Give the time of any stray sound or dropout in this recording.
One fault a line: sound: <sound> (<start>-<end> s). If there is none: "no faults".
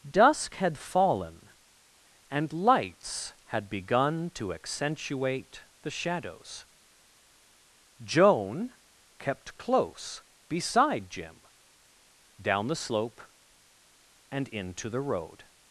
no faults